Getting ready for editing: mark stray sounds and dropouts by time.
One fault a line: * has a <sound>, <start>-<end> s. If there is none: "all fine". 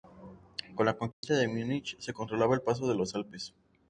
* has a dropout, 1.1-1.2 s